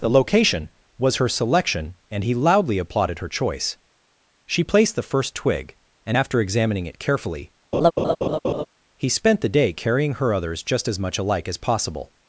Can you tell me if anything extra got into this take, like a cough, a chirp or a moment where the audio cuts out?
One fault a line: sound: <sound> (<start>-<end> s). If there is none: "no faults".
sound: laugh (7.7-8.7 s)